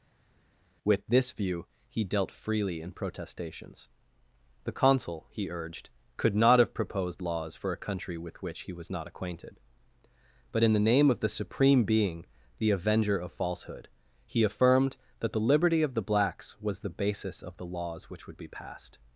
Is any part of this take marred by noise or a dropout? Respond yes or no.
no